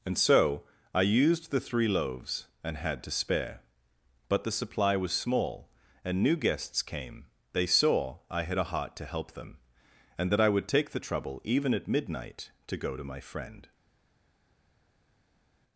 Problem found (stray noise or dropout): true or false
false